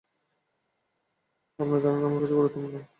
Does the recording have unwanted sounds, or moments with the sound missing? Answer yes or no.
no